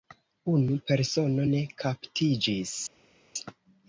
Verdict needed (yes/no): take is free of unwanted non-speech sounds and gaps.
yes